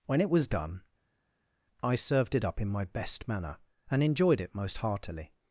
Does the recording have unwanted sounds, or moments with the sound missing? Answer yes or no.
no